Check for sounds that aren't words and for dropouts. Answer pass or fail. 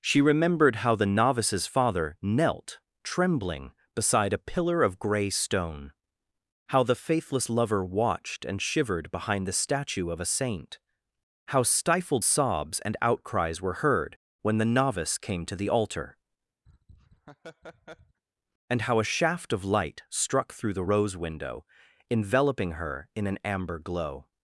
fail